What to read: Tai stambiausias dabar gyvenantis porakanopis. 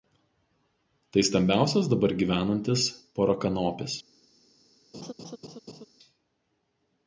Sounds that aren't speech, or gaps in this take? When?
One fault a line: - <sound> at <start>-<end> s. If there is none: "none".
- laugh at 4.9-5.9 s